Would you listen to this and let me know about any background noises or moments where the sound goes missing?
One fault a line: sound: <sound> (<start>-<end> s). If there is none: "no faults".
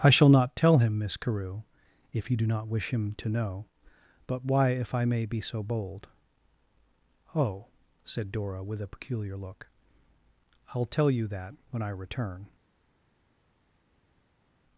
no faults